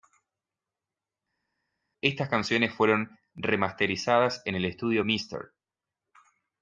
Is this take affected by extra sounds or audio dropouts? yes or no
no